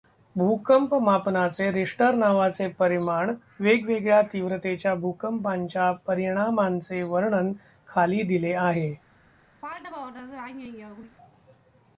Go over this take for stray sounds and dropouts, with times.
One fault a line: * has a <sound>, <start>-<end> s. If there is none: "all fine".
* has a throat clearing, 9.6-11.2 s